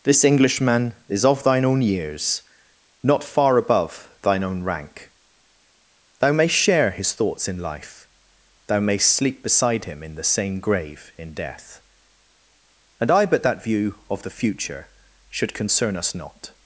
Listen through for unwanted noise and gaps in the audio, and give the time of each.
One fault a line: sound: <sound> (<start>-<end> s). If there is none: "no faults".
no faults